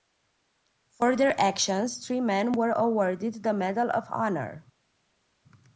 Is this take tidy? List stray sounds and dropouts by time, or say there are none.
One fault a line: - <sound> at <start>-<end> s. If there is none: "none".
none